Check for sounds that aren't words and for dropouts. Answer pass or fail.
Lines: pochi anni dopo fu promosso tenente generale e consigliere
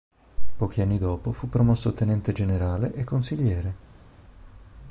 pass